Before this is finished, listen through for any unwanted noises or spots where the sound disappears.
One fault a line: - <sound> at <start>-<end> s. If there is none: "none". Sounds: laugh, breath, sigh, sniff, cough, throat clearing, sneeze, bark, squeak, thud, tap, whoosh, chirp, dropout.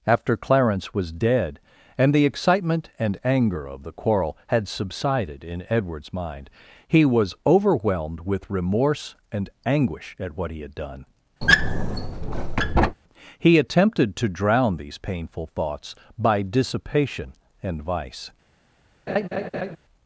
- squeak at 11.4-13.0 s
- laugh at 19.1-19.8 s